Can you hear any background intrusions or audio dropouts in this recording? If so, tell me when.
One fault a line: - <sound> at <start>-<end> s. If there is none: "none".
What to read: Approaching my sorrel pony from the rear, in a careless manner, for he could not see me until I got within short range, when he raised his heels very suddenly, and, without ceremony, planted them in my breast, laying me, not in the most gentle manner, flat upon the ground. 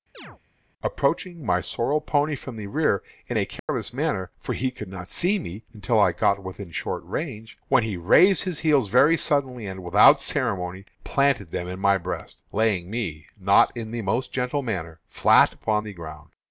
- chirp at 0.1-0.4 s
- dropout at 3.6-3.7 s